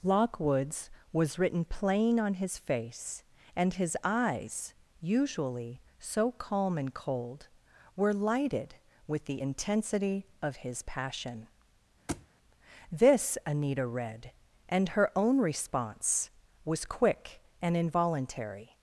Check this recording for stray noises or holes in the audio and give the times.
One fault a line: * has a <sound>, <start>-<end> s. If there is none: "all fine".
* has a thud, 12.1-12.3 s